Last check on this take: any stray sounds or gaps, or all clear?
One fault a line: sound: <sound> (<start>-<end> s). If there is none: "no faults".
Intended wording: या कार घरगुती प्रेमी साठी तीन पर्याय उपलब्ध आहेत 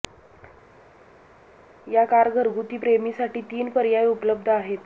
no faults